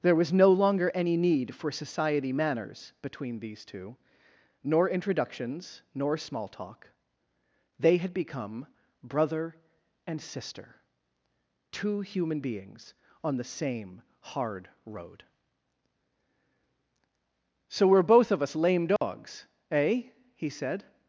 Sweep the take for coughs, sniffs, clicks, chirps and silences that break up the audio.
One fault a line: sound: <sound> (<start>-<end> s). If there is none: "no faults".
sound: dropout (19.0-19.0 s)